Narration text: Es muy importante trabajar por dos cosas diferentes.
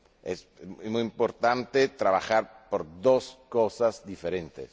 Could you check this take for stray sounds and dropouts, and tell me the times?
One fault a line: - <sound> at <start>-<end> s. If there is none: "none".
none